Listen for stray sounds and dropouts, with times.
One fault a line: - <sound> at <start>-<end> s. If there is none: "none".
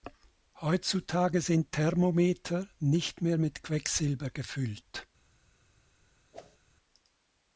- whoosh at 6.3-6.6 s